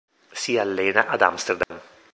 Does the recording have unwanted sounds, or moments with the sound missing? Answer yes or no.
yes